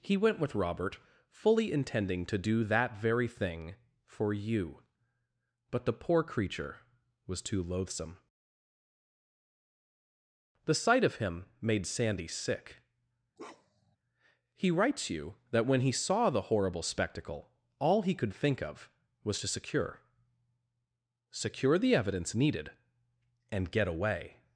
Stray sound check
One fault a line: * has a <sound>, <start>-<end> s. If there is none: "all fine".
* has a bark, 13.4-14.0 s